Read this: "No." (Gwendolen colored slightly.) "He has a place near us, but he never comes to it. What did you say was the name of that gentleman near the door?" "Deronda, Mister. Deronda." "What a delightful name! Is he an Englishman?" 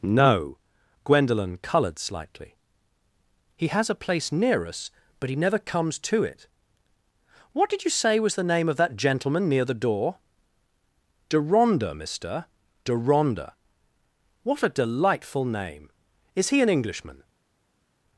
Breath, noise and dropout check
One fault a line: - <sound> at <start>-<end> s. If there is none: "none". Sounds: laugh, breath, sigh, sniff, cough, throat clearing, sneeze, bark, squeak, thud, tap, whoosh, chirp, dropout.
none